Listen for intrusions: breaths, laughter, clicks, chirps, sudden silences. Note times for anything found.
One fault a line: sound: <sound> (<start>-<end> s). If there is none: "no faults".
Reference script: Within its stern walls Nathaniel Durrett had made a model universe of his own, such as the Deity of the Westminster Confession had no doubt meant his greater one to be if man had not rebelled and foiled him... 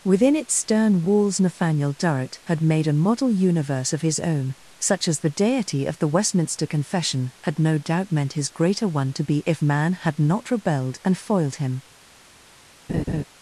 sound: laugh (12.9-13.2 s)